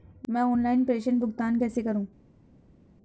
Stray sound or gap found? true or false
false